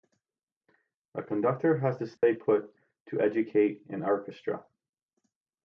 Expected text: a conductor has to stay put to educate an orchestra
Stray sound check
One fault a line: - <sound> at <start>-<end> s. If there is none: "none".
- dropout at 2.2-2.2 s